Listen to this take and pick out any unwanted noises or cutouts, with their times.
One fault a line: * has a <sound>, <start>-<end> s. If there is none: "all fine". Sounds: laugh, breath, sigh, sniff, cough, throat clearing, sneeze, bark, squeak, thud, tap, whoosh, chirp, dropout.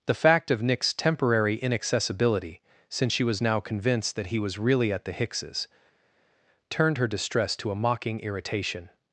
all fine